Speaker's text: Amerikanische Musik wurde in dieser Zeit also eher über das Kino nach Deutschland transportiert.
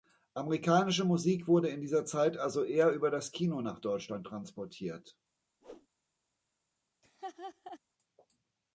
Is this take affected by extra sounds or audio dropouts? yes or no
yes